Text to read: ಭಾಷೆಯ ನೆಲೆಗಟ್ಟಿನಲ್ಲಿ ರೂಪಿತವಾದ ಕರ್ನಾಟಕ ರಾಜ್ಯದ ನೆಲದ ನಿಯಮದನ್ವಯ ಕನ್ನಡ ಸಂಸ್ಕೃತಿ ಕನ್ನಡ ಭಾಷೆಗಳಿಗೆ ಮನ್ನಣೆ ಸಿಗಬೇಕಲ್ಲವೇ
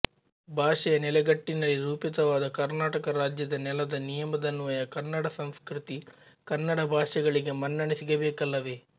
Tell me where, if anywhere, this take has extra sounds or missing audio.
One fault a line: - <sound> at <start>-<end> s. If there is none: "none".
none